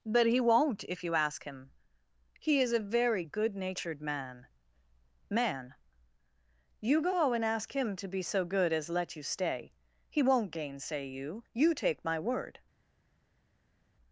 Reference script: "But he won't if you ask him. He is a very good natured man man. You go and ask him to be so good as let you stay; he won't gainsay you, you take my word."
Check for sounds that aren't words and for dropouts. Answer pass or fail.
pass